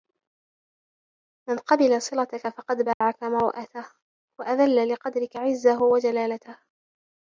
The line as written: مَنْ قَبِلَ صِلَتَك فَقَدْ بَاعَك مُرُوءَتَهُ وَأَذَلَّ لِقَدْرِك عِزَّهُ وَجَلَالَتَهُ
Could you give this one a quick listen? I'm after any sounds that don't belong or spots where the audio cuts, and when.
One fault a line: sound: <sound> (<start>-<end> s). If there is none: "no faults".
sound: dropout (2.9-3.0 s)